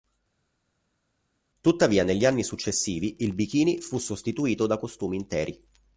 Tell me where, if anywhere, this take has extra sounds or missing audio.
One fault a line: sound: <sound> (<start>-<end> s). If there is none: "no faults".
no faults